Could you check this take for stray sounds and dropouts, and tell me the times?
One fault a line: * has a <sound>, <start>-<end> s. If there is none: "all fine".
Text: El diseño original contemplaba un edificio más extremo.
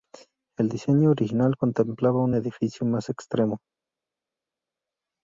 all fine